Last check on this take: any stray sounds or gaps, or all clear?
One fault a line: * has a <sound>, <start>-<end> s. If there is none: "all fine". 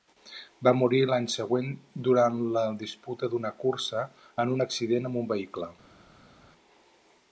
all fine